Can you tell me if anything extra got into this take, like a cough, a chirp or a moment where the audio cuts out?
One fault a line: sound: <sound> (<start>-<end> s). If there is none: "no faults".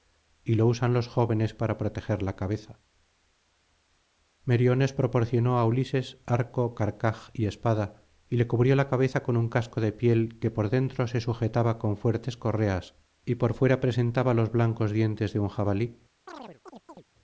sound: chirp (16.3-17.0 s)